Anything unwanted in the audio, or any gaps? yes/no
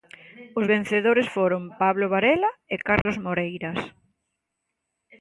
yes